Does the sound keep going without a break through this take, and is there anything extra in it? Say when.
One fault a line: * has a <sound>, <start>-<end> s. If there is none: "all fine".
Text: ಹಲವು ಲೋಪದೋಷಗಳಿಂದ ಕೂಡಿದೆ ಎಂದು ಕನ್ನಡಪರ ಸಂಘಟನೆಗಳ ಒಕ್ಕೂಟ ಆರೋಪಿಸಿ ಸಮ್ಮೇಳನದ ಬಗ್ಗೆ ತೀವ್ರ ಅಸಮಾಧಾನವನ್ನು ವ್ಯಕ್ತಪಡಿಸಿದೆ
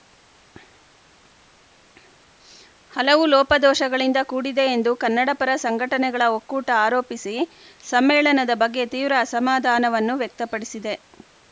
all fine